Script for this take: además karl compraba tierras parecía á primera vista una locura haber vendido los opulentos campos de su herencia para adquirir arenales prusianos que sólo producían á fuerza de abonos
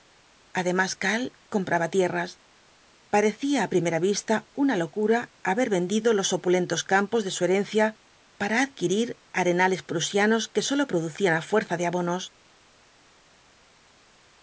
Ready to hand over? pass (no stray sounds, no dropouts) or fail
pass